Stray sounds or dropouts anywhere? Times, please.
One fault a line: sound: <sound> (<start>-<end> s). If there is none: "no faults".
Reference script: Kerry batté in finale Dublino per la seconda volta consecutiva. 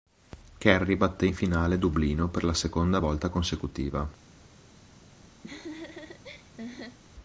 sound: laugh (5.4-7.0 s)